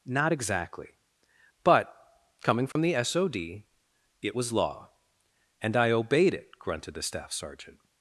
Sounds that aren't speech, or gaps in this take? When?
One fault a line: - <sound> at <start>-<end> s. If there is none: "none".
- dropout at 2.7-2.8 s